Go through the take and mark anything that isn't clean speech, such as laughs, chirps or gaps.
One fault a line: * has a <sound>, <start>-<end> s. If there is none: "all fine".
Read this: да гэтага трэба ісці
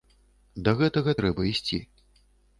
all fine